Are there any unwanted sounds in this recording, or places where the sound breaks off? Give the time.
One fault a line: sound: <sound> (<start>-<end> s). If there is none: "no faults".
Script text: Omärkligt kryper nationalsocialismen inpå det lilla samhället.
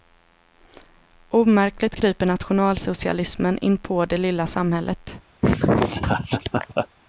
sound: laugh (5.4-6.9 s)